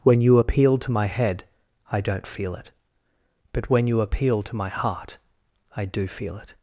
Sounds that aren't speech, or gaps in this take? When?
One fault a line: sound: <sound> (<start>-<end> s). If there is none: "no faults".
no faults